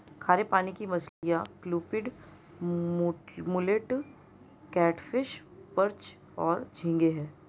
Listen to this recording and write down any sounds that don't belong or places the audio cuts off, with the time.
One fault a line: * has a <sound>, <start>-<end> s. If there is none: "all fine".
* has a dropout, 1.1-1.2 s